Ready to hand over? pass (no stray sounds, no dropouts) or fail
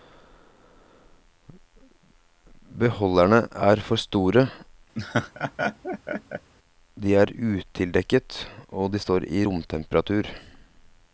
fail